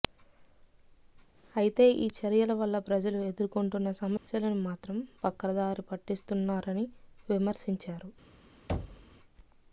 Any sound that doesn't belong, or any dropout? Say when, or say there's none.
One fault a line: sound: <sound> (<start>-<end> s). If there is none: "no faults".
sound: dropout (4.2-4.3 s)
sound: thud (8.7-9.1 s)